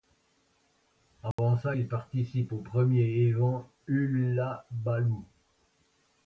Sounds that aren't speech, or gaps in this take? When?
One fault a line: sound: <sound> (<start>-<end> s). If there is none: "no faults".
sound: dropout (1.3-1.4 s)